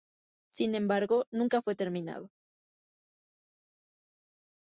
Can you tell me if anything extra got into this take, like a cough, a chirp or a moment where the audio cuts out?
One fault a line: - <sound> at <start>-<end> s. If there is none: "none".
none